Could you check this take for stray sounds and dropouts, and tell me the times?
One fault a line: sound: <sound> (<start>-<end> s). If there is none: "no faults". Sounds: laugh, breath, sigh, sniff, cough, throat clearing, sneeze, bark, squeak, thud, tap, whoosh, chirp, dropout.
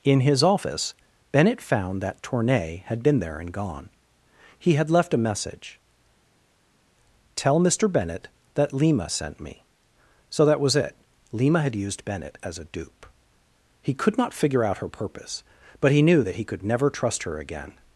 no faults